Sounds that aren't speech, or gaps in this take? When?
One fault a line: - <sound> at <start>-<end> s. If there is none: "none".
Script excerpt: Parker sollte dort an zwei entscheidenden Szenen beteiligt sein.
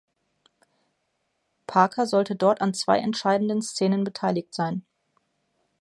none